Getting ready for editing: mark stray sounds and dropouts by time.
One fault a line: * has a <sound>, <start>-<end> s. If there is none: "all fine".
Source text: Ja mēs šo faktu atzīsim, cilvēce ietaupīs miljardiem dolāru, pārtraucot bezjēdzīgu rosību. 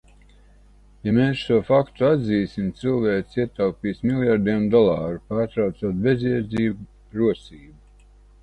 all fine